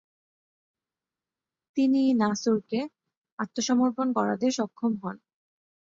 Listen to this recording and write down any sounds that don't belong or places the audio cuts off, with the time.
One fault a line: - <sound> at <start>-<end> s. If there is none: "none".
none